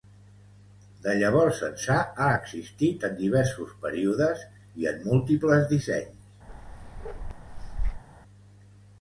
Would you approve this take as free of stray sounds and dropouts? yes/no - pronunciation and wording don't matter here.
no